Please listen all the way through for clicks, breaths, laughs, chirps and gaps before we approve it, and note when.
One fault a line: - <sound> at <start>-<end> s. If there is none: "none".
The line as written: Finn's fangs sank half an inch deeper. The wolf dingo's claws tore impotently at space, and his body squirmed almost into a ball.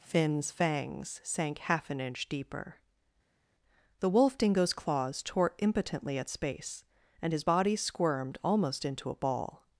none